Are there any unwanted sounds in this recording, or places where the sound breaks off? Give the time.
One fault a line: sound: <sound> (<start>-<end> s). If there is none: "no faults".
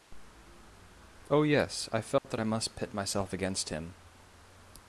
sound: dropout (2.2-2.2 s)